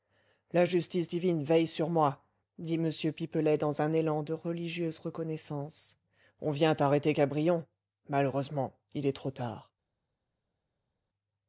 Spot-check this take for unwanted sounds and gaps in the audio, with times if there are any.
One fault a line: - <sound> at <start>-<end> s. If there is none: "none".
none